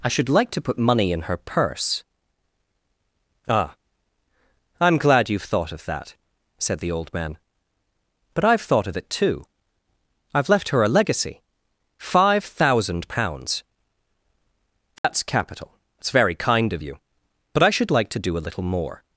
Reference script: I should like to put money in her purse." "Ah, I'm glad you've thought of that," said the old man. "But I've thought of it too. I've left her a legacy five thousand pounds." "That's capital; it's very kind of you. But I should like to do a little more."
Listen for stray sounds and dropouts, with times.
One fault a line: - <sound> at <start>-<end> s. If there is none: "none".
- dropout at 15.0-15.0 s